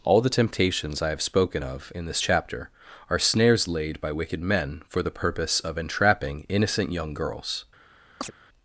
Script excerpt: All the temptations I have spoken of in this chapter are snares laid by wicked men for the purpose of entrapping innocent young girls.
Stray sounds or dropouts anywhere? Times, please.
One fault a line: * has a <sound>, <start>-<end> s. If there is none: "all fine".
* has a chirp, 8.2-8.3 s